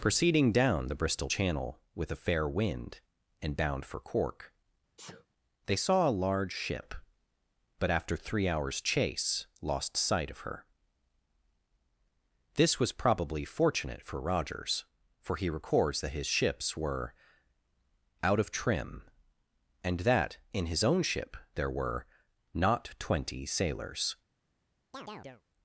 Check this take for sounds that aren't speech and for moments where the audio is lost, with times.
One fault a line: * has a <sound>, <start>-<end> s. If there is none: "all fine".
* has a sneeze, 5.0-5.3 s
* has a chirp, 24.9-25.4 s